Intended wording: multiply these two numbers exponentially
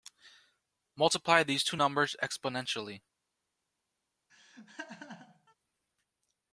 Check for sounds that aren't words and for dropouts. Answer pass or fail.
fail